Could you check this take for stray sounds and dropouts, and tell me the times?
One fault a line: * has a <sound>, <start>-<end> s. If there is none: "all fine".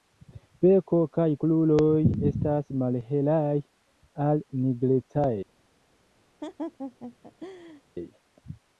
* has a laugh, 6.4-7.8 s